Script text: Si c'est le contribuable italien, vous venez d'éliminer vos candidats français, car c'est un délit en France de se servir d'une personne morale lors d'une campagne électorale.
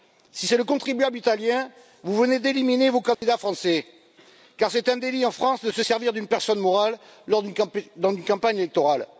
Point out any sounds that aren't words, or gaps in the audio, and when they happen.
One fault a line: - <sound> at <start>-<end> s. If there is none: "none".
- dropout at 3.1-3.2 s